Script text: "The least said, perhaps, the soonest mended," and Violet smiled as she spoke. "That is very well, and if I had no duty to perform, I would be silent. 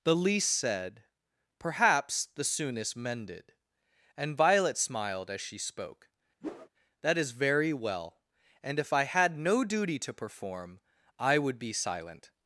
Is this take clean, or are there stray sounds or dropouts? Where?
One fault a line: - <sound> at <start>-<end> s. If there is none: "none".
- whoosh at 6.4-6.7 s